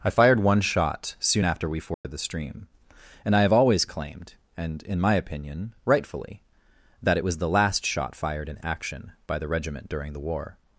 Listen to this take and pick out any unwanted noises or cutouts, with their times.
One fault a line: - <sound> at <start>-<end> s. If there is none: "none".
- dropout at 1.9-2.0 s